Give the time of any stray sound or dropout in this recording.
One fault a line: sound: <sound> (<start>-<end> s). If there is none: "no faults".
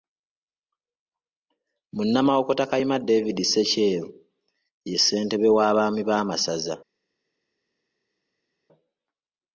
no faults